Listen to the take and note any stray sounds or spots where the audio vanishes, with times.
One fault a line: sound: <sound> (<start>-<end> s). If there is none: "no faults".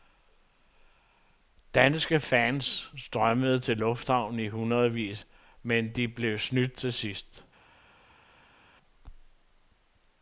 no faults